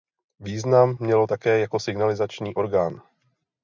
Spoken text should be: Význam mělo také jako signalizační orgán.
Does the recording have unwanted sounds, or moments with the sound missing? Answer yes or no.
no